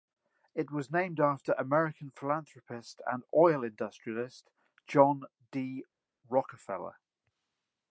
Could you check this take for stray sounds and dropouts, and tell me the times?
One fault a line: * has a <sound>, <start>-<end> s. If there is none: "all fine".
all fine